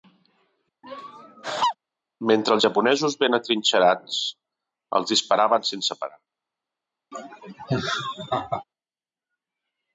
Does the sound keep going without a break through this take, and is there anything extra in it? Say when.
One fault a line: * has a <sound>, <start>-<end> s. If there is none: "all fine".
* has a laugh, 0.8-1.8 s
* has a laugh, 7.1-8.6 s